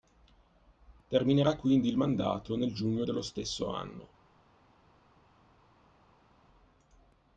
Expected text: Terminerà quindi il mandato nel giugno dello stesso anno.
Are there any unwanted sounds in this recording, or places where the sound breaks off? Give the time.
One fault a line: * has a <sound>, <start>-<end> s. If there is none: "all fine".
all fine